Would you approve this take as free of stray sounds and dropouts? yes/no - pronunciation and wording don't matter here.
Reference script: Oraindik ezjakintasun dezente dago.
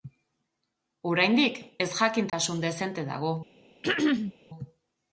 no